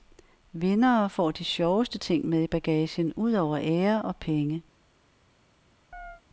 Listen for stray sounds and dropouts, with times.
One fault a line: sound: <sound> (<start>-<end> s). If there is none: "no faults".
sound: chirp (5.9-6.2 s)